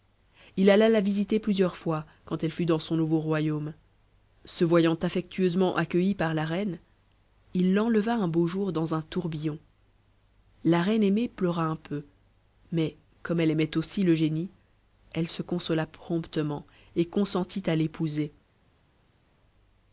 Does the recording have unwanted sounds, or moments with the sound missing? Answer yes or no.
no